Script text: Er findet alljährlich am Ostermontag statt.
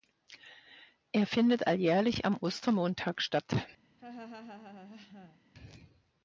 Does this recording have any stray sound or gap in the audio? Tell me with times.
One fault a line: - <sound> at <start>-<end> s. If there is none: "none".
- laugh at 4.0-5.4 s